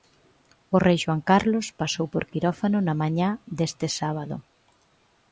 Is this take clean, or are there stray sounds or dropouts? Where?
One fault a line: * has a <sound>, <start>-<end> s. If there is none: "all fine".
all fine